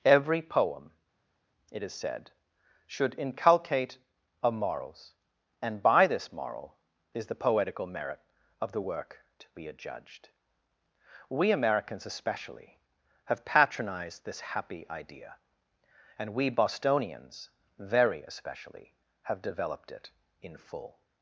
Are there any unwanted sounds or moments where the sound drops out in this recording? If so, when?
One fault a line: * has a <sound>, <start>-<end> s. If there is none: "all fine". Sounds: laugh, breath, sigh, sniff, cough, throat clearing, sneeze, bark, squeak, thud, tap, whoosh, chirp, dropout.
all fine